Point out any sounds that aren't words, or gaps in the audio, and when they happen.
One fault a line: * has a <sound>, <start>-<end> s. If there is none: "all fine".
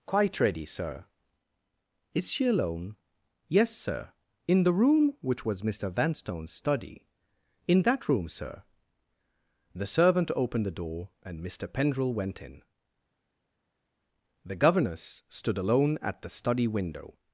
all fine